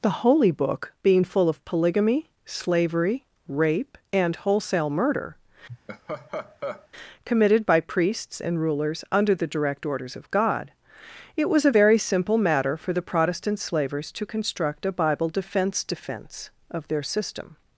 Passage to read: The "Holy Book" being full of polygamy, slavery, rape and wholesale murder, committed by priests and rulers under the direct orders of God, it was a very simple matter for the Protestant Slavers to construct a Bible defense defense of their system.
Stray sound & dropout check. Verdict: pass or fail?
fail